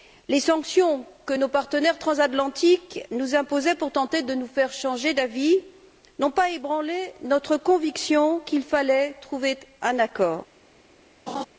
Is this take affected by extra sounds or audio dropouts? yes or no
yes